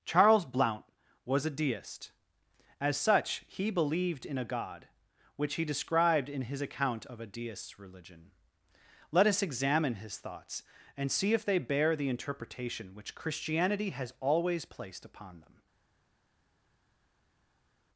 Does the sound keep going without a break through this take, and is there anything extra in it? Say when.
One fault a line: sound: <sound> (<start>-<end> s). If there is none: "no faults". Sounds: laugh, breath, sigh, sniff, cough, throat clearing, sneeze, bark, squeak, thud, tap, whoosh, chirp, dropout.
no faults